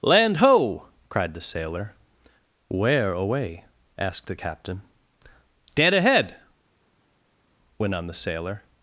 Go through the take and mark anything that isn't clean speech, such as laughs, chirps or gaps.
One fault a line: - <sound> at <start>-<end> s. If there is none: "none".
none